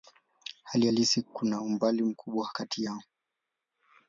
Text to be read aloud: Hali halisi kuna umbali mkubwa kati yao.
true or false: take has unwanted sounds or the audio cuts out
false